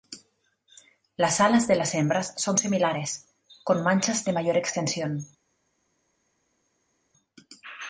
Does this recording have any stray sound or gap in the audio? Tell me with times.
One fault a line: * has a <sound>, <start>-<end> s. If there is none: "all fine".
all fine